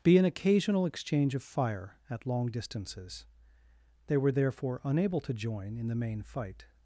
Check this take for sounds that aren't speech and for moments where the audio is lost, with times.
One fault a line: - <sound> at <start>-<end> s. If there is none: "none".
none